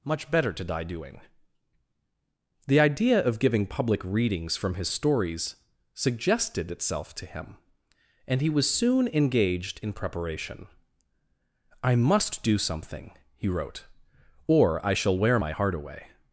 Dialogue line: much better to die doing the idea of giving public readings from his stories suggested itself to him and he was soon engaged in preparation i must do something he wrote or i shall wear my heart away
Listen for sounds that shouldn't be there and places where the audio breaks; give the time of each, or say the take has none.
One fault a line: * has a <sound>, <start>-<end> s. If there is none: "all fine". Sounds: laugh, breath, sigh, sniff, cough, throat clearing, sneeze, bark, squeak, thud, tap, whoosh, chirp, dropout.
all fine